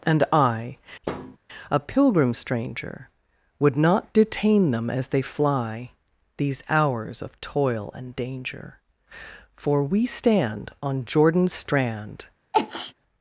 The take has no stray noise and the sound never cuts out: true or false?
false